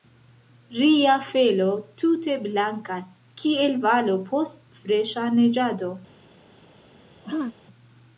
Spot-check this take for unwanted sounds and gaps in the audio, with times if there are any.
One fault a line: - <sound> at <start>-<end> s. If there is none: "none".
- throat clearing at 7.2-7.6 s